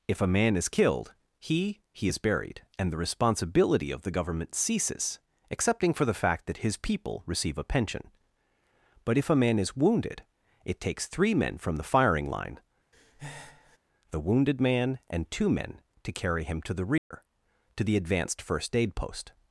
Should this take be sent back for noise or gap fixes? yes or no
yes